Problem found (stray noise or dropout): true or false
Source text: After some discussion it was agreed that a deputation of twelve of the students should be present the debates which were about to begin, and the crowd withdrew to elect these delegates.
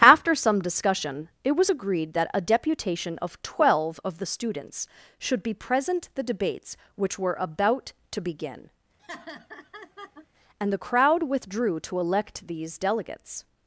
true